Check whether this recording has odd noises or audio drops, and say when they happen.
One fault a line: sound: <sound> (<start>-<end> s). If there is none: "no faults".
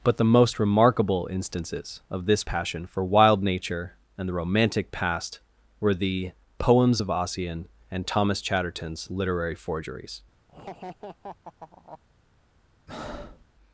sound: laugh (10.5-12.0 s)
sound: breath (12.9-13.5 s)